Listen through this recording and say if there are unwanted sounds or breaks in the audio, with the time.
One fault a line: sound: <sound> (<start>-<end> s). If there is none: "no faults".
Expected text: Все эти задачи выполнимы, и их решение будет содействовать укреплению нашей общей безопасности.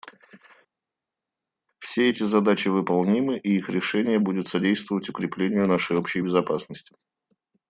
no faults